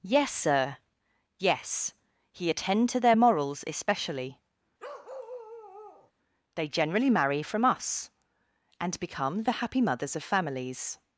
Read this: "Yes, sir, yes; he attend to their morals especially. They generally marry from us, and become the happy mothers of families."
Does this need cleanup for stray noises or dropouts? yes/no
yes